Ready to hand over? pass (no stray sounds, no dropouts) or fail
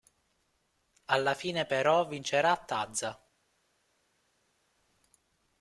pass